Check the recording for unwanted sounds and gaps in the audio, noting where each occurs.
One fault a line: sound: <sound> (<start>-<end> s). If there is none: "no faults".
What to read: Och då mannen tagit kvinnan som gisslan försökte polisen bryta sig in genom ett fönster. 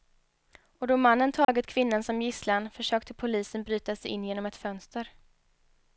sound: dropout (1.4-1.5 s)